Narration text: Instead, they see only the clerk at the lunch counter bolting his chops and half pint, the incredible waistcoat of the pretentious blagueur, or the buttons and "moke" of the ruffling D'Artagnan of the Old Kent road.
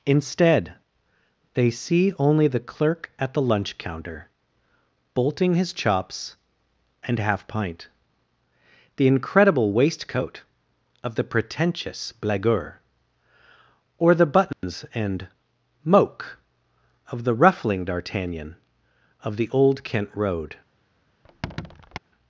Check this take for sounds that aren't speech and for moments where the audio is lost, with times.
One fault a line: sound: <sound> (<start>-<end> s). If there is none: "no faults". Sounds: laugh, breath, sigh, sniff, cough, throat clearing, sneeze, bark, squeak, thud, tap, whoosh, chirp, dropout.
sound: dropout (14.5-14.6 s)
sound: squeak (21.2-22.0 s)